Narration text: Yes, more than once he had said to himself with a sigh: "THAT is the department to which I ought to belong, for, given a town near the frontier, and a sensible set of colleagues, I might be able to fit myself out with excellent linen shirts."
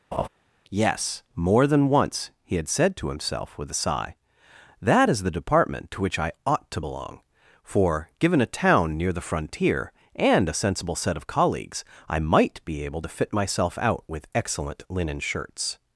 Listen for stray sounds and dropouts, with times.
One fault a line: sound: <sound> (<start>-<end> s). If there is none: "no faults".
sound: laugh (0.1-0.3 s)